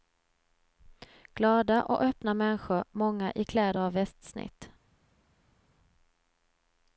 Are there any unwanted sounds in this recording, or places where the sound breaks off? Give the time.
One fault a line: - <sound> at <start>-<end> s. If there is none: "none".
none